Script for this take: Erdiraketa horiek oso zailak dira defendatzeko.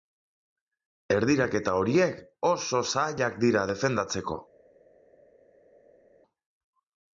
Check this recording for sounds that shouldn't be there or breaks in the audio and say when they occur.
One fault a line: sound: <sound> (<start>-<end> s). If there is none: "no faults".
no faults